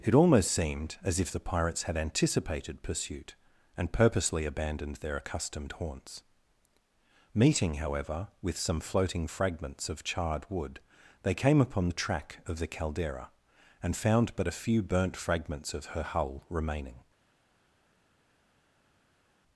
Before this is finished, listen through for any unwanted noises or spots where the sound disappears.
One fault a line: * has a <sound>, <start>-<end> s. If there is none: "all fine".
all fine